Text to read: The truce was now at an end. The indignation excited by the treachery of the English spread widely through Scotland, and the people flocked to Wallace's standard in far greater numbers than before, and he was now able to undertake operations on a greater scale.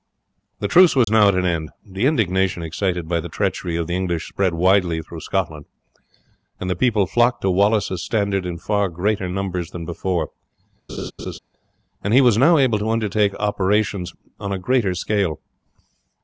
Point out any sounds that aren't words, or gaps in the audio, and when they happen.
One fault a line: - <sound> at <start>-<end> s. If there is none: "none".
- dropout at 1.0-1.1 s
- laugh at 10.9-11.4 s